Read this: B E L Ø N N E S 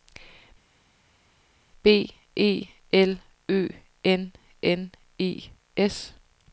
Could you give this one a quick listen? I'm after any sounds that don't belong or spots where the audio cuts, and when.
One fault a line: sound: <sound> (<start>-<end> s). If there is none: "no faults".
no faults